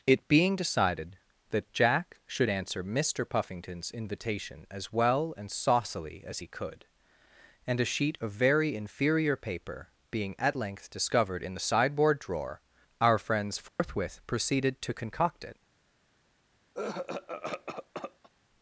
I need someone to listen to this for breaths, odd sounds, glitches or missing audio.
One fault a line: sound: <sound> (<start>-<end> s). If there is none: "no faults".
sound: dropout (13.7-13.8 s)
sound: cough (16.7-18.3 s)